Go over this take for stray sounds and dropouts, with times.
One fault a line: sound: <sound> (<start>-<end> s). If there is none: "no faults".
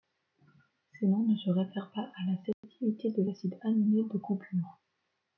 sound: dropout (2.5-2.6 s)